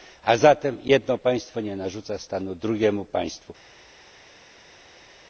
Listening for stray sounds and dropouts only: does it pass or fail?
pass